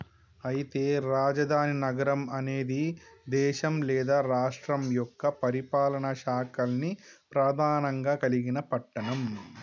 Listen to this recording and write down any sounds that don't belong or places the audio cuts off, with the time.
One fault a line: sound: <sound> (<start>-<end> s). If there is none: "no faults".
no faults